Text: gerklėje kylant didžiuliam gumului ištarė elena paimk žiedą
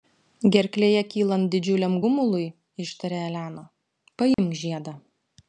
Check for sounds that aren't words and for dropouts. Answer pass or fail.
fail